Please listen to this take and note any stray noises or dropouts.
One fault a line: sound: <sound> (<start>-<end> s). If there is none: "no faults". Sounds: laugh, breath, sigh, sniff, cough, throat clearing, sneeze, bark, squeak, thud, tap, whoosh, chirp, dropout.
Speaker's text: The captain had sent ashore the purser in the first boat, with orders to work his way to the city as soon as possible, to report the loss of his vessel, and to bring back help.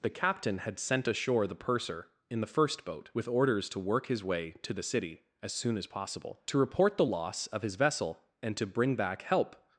no faults